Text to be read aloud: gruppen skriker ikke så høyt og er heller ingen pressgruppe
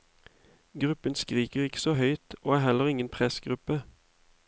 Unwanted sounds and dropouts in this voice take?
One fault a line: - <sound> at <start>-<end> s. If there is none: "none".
none